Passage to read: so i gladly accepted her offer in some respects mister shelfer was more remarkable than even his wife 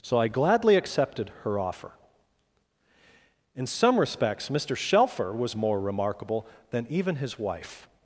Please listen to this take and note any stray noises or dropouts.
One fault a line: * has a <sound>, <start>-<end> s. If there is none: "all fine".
all fine